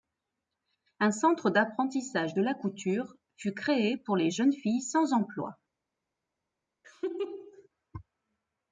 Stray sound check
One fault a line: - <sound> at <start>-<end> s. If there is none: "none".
- laugh at 6.8-7.7 s